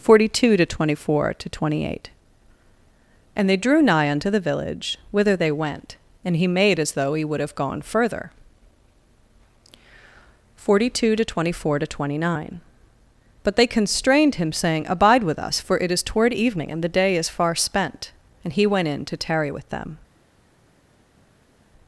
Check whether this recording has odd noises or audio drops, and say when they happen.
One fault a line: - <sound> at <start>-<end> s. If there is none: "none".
none